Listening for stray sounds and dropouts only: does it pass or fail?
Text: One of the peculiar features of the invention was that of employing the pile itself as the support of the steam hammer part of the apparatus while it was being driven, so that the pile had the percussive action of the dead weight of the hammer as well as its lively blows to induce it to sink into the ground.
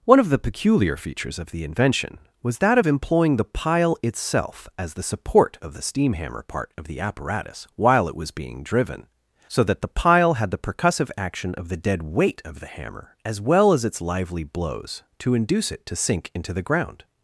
pass